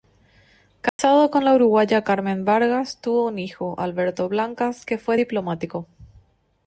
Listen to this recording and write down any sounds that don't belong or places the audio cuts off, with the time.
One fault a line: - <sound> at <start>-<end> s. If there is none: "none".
- dropout at 0.9-1.0 s